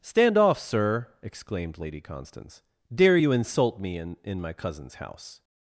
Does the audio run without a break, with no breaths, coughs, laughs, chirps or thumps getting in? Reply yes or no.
yes